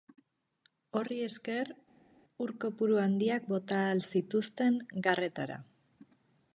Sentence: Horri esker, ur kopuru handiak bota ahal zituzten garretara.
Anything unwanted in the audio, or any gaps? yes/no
no